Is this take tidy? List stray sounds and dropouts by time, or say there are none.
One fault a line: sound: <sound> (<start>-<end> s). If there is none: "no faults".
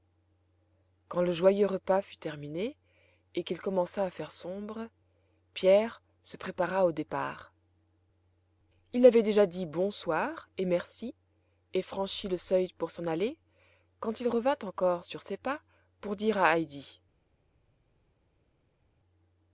no faults